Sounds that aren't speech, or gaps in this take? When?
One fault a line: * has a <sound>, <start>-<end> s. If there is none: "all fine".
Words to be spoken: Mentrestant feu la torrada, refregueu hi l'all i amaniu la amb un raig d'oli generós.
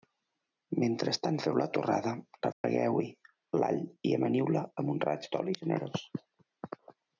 * has a dropout, 2.5-2.6 s